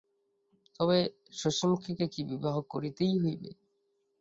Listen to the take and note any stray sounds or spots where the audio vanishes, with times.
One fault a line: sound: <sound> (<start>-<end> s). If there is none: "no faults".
no faults